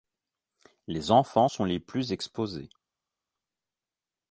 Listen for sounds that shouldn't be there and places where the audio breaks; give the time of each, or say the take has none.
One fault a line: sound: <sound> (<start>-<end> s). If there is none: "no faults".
no faults